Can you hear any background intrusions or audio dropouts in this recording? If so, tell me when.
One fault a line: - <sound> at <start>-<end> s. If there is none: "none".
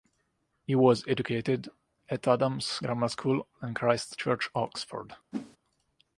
- whoosh at 5.3-5.6 s